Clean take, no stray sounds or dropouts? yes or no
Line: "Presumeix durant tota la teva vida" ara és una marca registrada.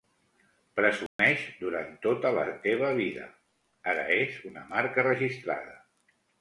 no